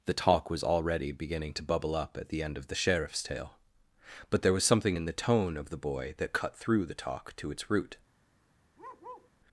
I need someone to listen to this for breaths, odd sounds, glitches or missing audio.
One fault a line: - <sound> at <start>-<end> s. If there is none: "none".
- bark at 8.8-9.3 s